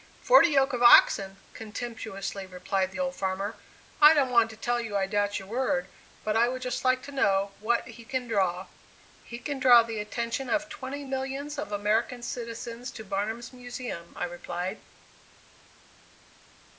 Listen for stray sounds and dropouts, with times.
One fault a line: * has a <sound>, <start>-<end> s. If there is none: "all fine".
all fine